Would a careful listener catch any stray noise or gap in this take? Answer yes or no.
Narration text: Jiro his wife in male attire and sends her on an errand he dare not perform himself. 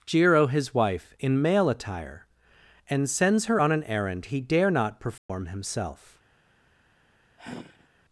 yes